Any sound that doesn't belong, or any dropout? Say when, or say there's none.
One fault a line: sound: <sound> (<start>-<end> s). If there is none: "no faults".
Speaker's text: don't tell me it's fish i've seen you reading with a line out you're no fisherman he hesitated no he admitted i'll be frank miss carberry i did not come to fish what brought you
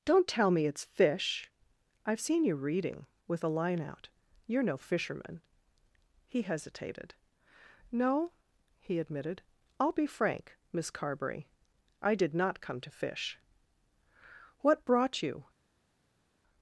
no faults